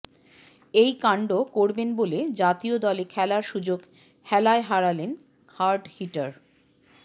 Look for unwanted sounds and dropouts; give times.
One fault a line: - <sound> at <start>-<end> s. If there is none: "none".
none